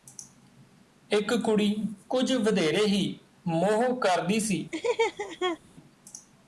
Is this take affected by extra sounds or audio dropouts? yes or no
yes